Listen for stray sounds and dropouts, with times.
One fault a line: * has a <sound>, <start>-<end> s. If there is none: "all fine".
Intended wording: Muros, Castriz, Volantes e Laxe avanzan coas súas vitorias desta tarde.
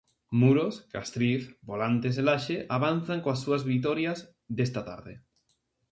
all fine